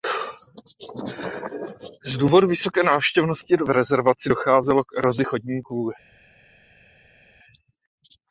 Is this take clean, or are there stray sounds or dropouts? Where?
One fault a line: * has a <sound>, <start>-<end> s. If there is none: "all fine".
all fine